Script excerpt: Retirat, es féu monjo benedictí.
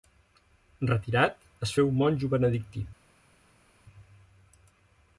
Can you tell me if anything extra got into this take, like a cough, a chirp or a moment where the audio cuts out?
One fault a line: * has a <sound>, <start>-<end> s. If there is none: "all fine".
all fine